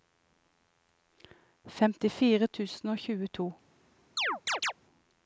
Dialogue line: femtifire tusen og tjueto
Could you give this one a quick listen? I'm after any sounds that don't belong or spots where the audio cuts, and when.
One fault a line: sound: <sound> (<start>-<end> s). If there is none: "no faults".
sound: chirp (4.2-4.7 s)